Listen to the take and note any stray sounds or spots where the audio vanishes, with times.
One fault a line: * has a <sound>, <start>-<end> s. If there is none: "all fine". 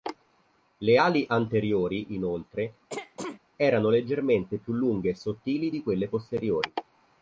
* has a throat clearing, 2.9-3.4 s